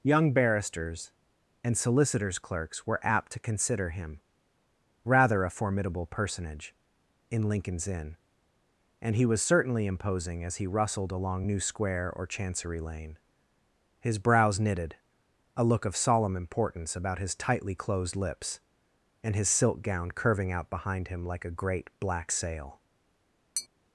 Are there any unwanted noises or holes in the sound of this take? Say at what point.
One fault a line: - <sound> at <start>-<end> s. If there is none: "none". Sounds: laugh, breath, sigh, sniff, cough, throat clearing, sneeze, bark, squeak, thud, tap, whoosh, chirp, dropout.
- tap at 23.6-23.7 s